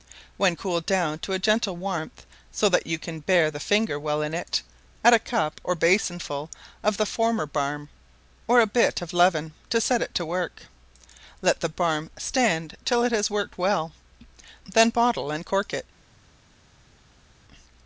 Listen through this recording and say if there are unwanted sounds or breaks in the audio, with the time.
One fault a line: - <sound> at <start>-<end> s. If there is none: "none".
none